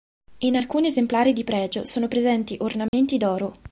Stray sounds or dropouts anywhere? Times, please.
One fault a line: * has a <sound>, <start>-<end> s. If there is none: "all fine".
* has a dropout, 2.9-2.9 s